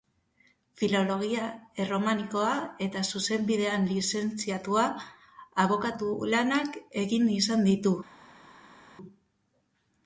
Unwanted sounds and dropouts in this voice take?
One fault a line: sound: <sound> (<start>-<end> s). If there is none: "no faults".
no faults